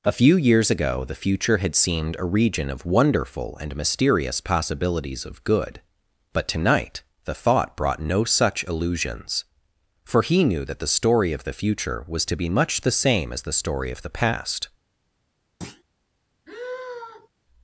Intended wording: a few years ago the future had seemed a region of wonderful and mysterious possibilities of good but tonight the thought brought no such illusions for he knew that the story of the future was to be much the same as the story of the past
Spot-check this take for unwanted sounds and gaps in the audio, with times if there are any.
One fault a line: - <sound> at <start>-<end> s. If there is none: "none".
- thud at 15.6-15.8 s
- sigh at 16.4-17.3 s